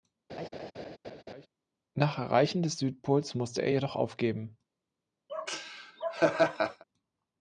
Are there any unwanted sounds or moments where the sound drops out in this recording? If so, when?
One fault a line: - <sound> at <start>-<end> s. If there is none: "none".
- laugh at 0.3-1.5 s
- laugh at 5.3-6.8 s